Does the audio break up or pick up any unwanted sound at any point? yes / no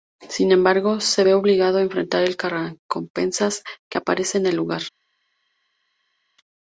no